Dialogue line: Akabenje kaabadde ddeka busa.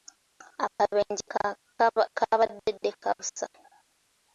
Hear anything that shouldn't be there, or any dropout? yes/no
yes